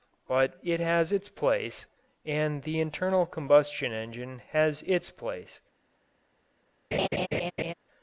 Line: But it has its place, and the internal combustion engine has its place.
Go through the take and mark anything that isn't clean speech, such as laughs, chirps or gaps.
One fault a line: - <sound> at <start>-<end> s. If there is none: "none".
- laugh at 6.9-7.7 s